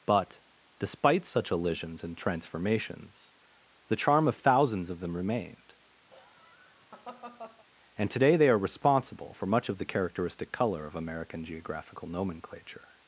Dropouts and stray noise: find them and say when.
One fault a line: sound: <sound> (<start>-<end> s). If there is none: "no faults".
sound: laugh (6.1-7.6 s)